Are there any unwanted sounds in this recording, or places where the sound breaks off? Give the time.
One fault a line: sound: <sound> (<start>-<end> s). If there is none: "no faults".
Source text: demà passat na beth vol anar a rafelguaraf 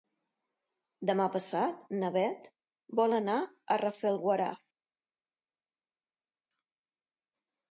no faults